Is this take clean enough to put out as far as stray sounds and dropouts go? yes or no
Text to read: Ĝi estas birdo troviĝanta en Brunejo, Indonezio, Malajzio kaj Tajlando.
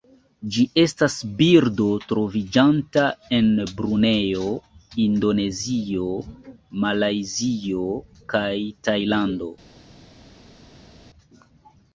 yes